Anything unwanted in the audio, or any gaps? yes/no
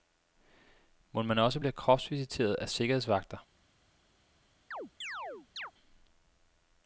yes